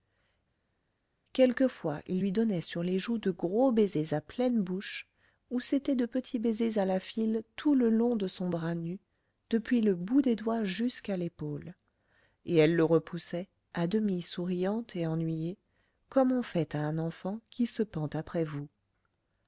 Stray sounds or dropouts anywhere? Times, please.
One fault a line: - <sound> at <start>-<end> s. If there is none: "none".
none